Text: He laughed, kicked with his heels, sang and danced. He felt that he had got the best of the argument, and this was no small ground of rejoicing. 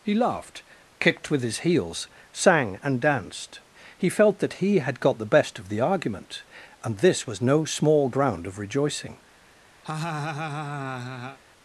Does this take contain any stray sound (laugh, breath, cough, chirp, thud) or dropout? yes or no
yes